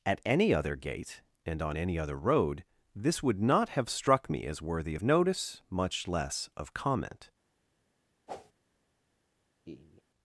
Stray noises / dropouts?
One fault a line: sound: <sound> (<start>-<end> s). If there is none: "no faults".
sound: whoosh (8.3-8.5 s)
sound: laugh (9.6-10.0 s)